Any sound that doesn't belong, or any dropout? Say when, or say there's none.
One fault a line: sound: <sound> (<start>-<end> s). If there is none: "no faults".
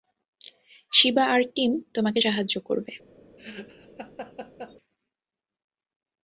sound: laugh (3.4-4.8 s)